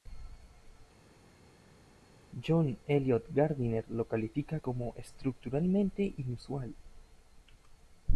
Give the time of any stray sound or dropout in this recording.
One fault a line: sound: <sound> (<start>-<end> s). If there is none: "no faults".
no faults